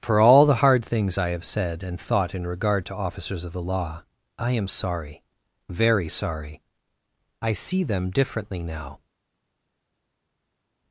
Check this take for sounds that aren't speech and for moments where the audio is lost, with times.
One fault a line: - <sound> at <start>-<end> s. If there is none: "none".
none